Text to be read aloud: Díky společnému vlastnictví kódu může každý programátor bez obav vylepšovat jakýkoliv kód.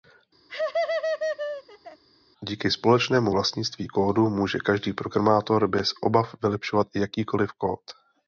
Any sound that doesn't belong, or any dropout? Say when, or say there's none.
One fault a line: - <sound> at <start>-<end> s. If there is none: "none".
- laugh at 0.5-2.0 s